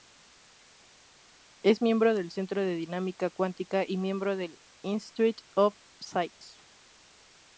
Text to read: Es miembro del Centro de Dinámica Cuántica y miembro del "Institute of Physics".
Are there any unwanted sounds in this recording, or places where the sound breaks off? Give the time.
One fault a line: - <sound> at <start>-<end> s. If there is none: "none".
none